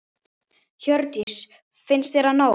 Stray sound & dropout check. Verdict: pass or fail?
fail